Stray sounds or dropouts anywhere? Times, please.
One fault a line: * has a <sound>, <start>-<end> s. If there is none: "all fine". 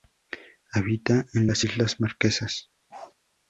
* has a bark, 2.9-3.1 s